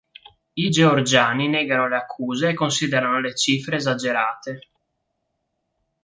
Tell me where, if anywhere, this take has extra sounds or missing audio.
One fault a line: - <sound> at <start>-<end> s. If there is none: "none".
none